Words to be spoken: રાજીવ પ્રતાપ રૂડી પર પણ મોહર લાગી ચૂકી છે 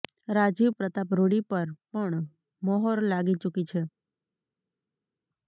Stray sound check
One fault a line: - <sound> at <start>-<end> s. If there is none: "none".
none